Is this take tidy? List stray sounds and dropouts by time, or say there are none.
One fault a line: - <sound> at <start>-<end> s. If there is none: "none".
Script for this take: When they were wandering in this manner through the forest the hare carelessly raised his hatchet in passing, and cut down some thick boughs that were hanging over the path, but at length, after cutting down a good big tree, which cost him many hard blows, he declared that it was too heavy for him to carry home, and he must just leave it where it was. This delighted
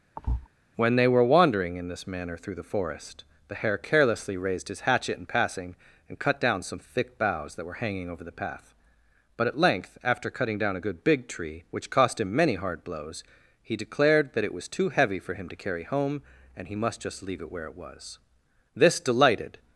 - thud at 0.2-0.5 s